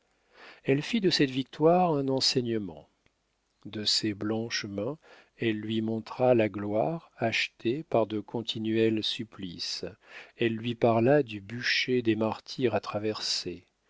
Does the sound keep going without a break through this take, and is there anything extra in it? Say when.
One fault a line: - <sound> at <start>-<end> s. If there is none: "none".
none